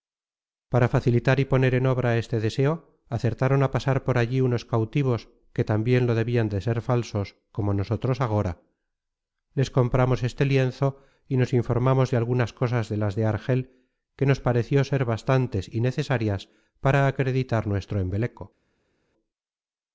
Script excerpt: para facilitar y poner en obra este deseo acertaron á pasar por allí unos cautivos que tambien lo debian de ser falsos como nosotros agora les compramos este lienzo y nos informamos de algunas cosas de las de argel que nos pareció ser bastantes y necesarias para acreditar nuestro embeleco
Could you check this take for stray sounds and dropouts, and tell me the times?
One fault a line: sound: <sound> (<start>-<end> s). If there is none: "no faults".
no faults